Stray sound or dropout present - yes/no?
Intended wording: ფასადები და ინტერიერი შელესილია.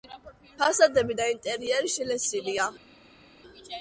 no